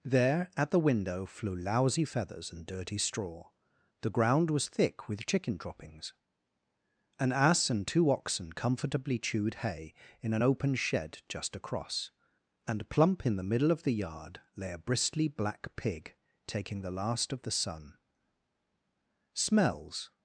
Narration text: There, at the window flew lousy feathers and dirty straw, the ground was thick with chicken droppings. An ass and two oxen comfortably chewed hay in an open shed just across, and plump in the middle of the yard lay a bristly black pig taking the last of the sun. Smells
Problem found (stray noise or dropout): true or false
false